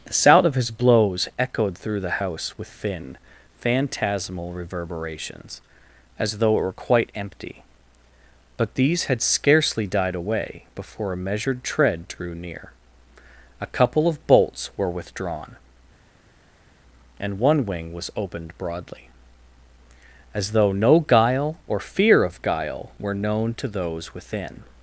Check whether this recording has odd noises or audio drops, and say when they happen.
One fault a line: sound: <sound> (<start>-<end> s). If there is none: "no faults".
no faults